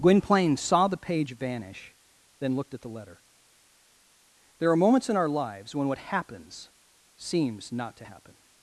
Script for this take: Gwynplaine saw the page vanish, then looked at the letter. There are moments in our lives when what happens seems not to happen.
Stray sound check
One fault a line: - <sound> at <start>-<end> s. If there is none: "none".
none